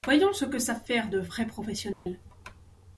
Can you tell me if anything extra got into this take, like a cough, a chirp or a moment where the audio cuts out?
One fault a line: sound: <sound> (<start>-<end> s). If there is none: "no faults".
sound: dropout (1.9-2.1 s)